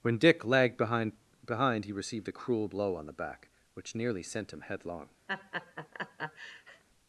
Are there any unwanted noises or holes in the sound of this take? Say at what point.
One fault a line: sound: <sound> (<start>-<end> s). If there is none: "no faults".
sound: laugh (5.3-6.8 s)